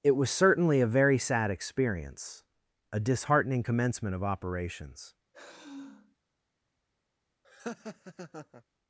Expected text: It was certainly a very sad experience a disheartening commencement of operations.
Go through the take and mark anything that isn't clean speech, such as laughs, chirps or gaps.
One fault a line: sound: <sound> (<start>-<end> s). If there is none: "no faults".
sound: sigh (5.3-6.2 s)
sound: laugh (7.4-8.6 s)